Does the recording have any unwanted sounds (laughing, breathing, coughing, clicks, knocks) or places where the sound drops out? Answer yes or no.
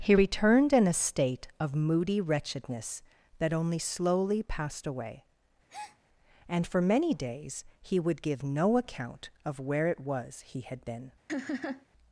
yes